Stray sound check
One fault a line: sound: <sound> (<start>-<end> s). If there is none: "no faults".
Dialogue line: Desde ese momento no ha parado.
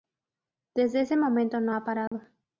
sound: dropout (2.1-2.1 s)